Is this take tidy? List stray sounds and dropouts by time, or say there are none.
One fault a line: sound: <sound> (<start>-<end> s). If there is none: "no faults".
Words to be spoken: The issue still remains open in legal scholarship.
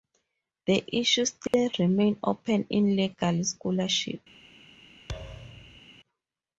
sound: dropout (1.5-1.5 s)
sound: thud (5.1-5.8 s)